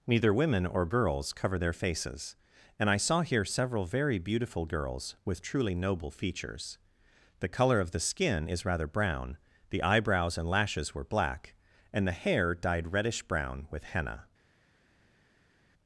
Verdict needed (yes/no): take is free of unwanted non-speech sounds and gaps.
yes